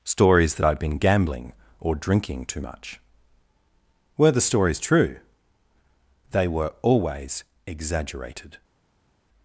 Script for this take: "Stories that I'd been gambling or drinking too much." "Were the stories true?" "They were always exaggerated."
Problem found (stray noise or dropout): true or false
false